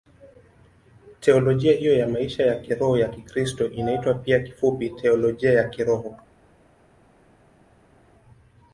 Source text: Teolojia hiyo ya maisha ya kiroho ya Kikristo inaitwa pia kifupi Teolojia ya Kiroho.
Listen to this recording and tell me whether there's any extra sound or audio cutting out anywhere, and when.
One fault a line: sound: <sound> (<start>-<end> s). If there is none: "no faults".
no faults